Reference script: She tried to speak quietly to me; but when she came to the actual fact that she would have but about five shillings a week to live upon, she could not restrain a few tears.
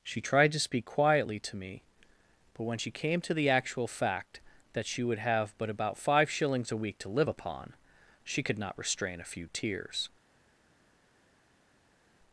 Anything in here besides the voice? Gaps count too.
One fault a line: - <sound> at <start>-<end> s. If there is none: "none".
none